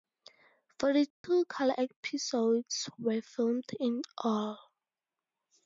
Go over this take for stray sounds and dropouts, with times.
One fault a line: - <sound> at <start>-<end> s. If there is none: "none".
- dropout at 1.1-1.2 s